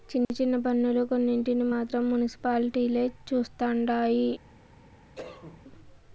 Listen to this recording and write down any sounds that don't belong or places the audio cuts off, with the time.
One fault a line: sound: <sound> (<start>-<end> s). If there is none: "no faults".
sound: cough (5.2-5.6 s)